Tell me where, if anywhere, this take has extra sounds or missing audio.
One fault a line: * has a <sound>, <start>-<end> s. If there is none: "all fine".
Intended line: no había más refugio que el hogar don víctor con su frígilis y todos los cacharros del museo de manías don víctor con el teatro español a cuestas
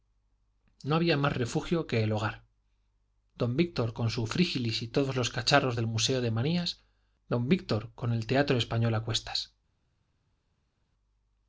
all fine